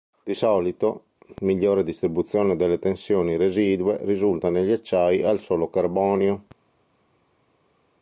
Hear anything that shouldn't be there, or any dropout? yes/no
no